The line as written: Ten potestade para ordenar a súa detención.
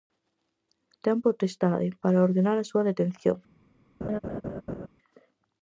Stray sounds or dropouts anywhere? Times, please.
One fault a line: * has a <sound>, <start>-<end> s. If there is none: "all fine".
* has a laugh, 4.0-4.9 s